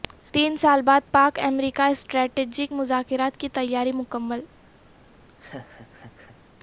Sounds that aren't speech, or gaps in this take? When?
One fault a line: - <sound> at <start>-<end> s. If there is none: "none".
- laugh at 5.3-6.4 s